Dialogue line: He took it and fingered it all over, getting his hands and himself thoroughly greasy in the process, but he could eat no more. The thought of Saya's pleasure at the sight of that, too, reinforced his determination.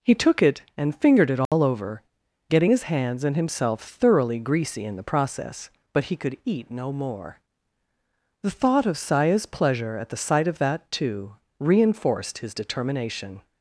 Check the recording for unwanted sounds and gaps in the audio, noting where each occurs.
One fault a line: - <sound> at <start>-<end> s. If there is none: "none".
- dropout at 1.5-1.5 s